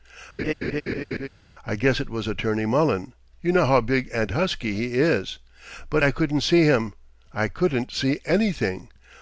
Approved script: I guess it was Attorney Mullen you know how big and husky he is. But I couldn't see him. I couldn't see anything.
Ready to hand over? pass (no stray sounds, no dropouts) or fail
fail